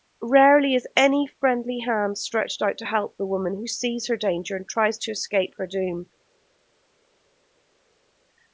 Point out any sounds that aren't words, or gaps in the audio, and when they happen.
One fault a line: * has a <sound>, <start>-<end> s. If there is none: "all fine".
all fine